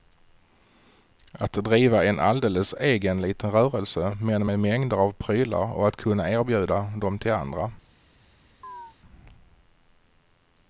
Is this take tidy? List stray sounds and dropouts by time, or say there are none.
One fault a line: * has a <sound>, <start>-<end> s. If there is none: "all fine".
* has a chirp, 8.6-9.0 s